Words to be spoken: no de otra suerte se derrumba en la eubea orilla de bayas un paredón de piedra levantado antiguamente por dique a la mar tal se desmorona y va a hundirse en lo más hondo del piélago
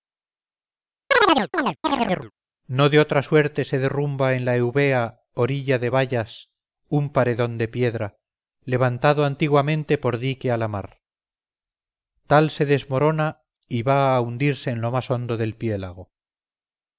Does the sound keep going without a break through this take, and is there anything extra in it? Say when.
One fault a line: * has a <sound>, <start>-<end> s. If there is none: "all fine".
* has a chirp, 1.1-2.3 s